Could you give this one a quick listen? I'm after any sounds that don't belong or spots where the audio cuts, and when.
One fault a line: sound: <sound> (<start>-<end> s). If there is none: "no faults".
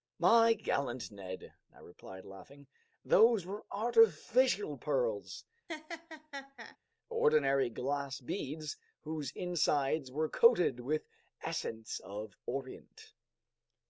sound: laugh (5.7-6.8 s)